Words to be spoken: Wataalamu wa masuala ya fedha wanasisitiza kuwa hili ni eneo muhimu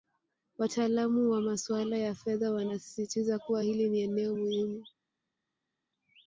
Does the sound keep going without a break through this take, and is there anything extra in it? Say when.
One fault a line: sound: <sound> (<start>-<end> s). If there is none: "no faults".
no faults